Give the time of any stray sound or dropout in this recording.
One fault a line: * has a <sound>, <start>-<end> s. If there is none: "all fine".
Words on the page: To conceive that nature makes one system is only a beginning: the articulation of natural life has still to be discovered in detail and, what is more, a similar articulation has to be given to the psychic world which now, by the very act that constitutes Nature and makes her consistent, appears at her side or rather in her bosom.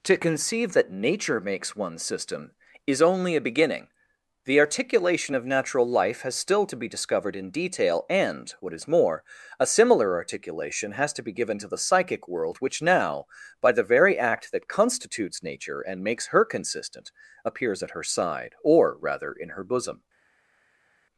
all fine